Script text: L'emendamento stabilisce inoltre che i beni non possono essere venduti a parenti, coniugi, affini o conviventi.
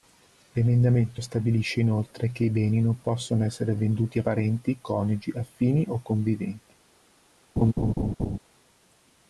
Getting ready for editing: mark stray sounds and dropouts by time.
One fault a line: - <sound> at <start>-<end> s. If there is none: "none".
- laugh at 7.6-8.4 s